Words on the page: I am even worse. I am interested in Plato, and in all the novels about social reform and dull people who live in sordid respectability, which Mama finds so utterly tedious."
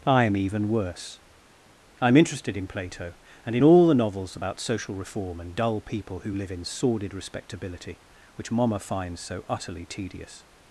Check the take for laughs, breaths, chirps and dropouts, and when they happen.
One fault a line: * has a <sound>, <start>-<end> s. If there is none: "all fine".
all fine